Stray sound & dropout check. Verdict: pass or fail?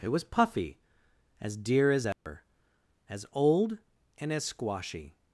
fail